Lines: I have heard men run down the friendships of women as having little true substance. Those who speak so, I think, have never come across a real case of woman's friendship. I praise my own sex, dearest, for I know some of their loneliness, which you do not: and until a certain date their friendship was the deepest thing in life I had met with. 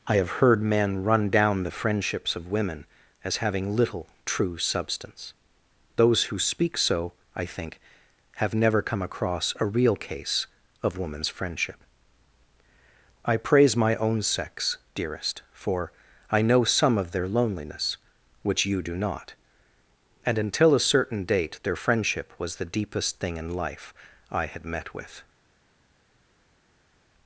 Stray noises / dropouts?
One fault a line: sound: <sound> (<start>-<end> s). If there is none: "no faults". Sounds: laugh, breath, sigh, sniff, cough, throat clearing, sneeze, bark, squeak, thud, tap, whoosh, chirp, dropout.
no faults